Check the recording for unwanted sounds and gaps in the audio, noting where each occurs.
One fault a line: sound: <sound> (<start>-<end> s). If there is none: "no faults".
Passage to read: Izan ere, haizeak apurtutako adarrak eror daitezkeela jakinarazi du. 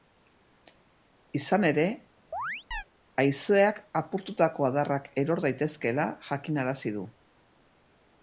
sound: chirp (2.3-2.8 s)